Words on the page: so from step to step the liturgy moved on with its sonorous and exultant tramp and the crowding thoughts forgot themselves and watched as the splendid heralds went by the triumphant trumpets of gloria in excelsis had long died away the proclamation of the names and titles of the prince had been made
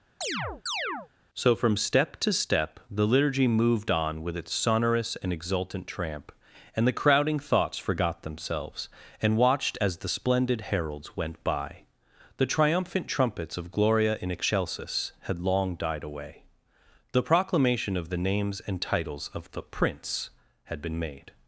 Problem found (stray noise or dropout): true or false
true